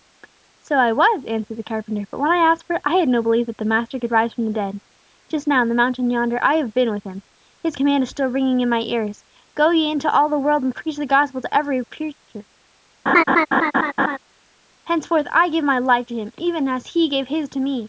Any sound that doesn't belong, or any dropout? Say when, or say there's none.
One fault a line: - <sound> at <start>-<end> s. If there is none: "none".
- laugh at 13.1-14.2 s